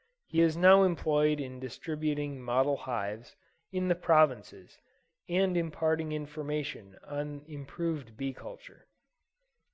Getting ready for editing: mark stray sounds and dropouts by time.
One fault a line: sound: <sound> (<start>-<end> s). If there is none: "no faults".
no faults